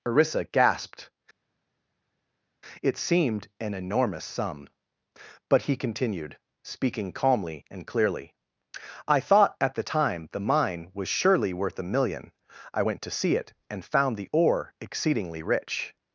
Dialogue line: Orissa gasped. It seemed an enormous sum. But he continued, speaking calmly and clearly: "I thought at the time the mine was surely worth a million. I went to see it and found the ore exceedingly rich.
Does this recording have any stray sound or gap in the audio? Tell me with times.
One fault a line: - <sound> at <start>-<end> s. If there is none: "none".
none